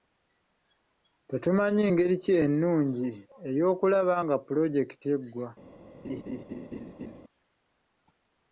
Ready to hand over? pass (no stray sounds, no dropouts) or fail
fail